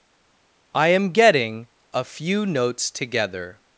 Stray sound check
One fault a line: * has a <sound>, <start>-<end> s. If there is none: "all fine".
all fine